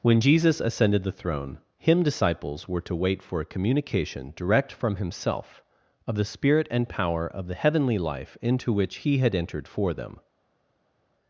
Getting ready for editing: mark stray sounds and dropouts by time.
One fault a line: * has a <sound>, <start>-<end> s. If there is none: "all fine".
all fine